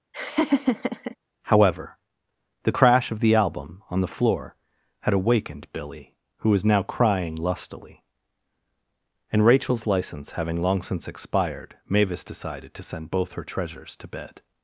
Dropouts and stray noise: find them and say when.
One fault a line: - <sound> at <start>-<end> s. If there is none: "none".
- laugh at 0.1-1.2 s